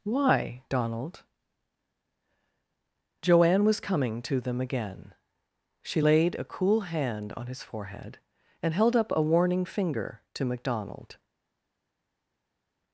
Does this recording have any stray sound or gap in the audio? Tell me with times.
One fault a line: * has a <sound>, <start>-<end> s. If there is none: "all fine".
all fine